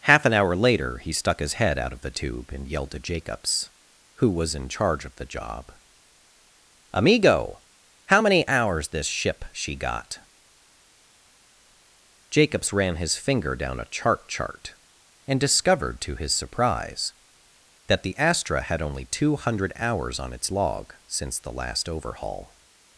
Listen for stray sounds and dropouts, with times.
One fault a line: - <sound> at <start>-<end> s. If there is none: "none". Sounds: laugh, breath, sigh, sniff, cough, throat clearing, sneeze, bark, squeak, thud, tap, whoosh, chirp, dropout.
none